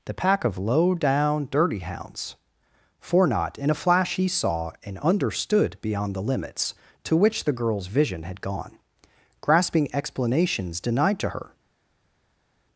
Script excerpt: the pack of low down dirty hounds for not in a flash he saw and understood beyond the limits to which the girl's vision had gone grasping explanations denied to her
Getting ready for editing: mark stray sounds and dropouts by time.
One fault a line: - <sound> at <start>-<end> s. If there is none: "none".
none